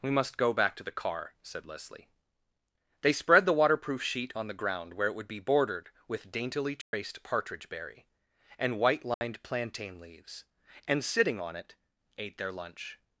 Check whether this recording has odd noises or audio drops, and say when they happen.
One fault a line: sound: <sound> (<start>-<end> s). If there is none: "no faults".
sound: dropout (6.8-6.9 s)
sound: dropout (9.1-9.2 s)